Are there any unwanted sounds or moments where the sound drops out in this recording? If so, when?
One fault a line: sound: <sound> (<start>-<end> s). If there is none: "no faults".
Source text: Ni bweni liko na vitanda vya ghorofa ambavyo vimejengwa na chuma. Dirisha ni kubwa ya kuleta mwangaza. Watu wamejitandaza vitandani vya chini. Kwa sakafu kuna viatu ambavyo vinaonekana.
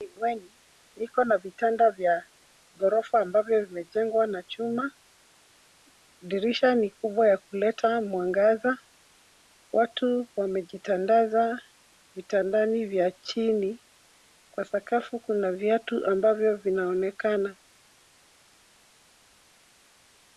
no faults